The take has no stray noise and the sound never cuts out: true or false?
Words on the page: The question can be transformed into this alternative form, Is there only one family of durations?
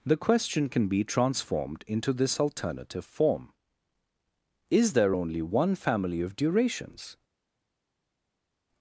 true